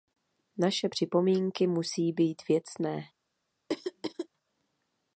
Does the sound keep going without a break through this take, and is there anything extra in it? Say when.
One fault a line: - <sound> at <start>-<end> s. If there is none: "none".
- throat clearing at 3.7-4.3 s